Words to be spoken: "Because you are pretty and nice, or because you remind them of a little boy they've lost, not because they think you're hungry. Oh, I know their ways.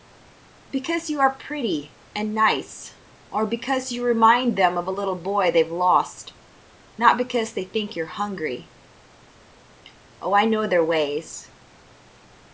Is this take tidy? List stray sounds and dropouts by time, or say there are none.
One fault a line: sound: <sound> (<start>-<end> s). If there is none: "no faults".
no faults